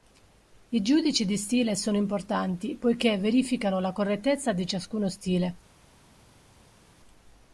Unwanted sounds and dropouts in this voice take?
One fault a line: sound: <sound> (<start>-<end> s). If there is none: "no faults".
no faults